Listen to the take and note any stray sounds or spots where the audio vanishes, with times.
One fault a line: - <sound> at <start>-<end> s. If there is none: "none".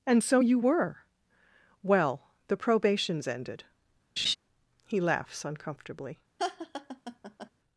- laugh at 4.2-4.4 s
- laugh at 6.4-7.5 s